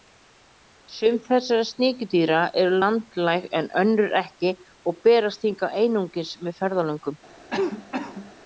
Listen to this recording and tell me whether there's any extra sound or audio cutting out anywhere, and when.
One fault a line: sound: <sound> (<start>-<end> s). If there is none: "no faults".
sound: cough (7.5-8.3 s)